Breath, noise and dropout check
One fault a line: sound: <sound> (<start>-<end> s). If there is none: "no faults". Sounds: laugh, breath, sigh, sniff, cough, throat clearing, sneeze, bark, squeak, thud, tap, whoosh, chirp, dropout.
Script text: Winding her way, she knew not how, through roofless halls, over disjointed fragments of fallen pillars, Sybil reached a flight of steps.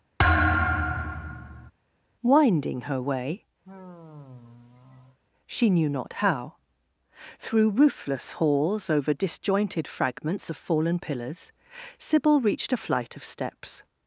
sound: thud (0.2-1.7 s)
sound: sigh (3.6-5.2 s)